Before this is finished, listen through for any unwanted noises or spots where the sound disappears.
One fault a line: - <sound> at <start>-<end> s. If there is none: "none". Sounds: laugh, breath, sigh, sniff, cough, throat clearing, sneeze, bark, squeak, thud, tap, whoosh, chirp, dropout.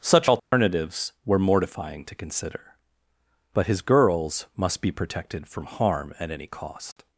- dropout at 0.4-0.5 s